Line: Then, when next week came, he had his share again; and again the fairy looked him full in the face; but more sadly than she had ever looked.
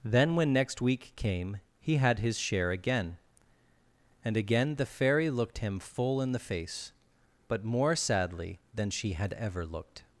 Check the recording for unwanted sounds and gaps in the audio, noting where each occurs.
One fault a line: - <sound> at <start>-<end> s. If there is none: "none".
none